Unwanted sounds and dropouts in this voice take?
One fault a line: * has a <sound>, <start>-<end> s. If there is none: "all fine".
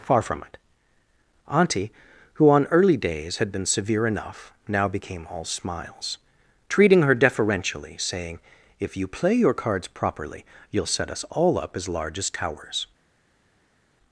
all fine